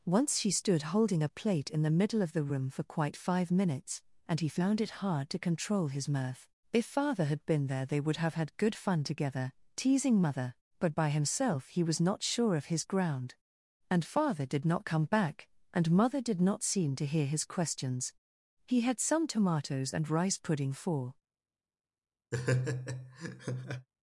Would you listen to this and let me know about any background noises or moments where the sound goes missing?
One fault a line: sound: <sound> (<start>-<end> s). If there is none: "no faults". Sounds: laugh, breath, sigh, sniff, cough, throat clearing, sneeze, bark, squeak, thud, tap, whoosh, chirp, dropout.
sound: laugh (22.3-23.9 s)